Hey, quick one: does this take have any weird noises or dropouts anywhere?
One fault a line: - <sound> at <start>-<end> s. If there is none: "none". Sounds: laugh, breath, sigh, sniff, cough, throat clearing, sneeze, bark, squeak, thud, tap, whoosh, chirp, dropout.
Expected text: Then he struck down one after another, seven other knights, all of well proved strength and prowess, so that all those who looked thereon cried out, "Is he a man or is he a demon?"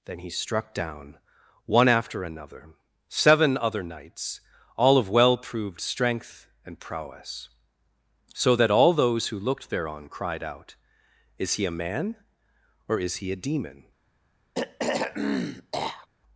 - throat clearing at 14.5-16.1 s